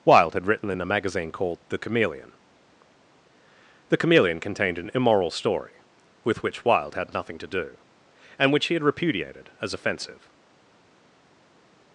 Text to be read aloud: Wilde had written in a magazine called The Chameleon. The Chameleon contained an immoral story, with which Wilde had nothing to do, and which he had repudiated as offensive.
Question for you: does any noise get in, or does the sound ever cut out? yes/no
no